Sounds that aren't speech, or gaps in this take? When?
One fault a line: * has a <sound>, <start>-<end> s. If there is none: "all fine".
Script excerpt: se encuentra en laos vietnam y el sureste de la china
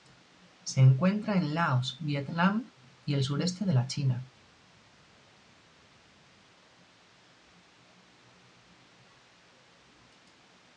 all fine